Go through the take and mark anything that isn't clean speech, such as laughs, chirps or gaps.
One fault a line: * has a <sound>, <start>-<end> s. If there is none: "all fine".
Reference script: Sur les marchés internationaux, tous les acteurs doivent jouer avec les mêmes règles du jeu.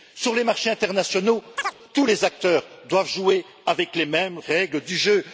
* has a chirp, 1.6-1.8 s